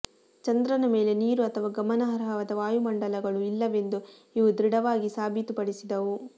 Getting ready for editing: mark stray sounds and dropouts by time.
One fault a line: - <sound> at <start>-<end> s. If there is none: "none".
none